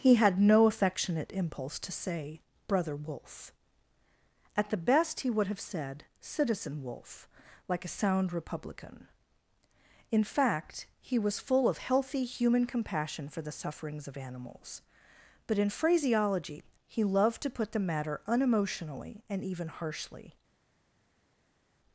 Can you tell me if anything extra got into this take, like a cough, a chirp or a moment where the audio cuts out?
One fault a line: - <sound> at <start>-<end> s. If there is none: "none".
none